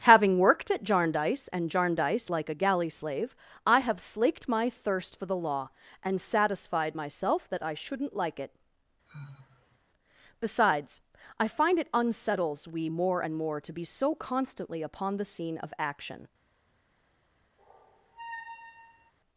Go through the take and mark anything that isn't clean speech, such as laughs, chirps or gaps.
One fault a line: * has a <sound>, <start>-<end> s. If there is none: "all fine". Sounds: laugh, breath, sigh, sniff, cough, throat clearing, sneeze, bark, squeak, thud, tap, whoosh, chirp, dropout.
* has a sigh, 9.1-9.8 s
* has a squeak, 17.6-19.1 s